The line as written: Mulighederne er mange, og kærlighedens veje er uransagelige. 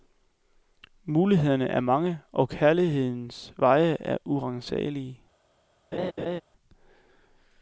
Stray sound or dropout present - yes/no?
yes